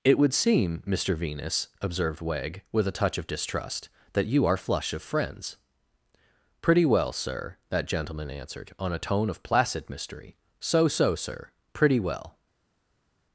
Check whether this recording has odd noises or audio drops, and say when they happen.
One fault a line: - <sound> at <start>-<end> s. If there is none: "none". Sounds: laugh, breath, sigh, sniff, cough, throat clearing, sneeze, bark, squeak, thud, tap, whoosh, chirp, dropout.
none